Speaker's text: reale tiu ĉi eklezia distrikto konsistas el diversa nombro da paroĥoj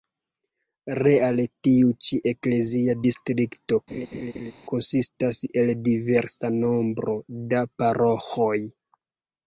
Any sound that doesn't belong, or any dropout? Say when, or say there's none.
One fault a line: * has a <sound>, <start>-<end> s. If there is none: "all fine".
* has a laugh, 3.9-4.5 s